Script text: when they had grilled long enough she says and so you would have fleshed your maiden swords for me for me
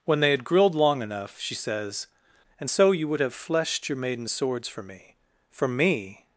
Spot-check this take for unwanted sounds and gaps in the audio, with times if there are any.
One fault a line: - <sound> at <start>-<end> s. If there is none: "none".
none